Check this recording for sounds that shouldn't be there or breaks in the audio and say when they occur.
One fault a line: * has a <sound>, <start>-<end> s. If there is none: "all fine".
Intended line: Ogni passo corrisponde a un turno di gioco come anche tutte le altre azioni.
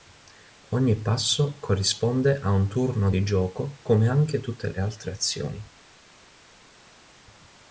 all fine